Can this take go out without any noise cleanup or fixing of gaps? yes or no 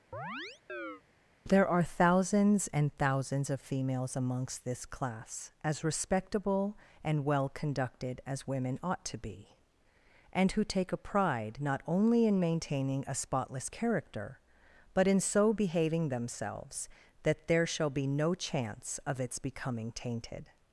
no